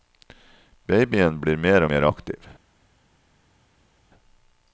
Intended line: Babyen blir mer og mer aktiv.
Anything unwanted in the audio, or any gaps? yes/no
no